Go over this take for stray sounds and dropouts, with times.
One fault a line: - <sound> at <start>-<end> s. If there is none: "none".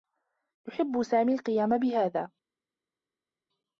none